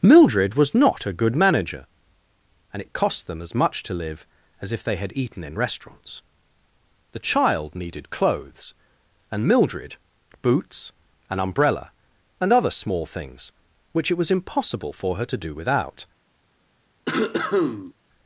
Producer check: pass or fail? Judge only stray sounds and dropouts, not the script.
fail